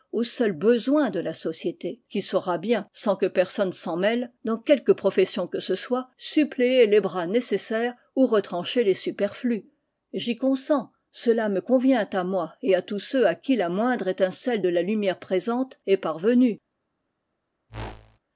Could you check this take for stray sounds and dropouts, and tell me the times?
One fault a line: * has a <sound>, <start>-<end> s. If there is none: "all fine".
* has a whoosh, 17.7-18.2 s